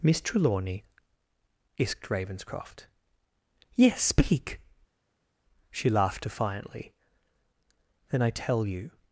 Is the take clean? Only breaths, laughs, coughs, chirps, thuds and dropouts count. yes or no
yes